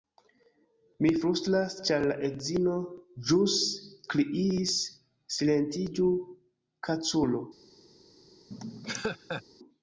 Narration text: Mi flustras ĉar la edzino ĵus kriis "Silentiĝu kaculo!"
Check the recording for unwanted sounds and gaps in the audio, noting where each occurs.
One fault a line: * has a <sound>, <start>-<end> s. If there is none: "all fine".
* has a laugh, 8.5-9.4 s